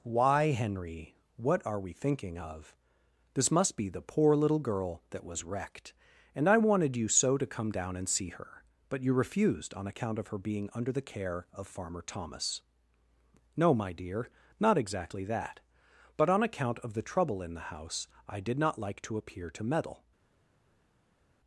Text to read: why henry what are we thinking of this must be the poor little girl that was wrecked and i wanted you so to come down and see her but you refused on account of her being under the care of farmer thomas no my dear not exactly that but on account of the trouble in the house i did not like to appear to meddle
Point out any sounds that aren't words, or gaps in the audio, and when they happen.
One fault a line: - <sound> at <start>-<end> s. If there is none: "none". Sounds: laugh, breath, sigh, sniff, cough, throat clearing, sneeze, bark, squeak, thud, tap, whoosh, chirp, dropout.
none